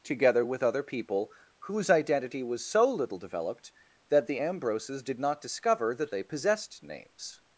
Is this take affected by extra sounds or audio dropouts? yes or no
no